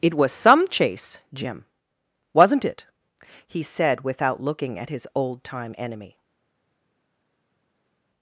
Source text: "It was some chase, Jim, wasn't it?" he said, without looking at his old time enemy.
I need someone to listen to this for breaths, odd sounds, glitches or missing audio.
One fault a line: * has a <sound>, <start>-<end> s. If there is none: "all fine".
all fine